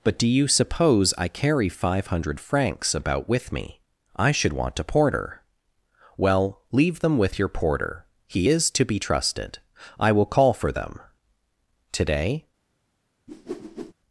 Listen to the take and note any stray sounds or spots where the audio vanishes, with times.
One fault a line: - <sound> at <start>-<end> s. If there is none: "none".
- whoosh at 13.3-13.9 s